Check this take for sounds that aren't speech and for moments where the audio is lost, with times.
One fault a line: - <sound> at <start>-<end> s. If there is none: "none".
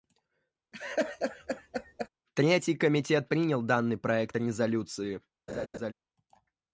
- laugh at 0.7-2.1 s
- laugh at 5.5-5.9 s